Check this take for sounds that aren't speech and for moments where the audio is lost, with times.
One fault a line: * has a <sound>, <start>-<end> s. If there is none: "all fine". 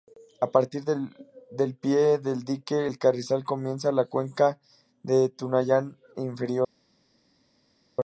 all fine